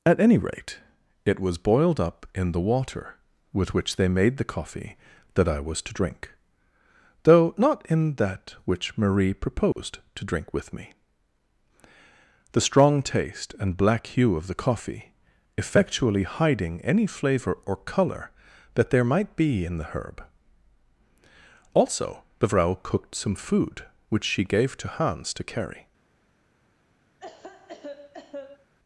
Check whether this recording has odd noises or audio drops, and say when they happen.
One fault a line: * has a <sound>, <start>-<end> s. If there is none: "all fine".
* has a dropout, 9.7-9.8 s
* has a cough, 27.2-28.7 s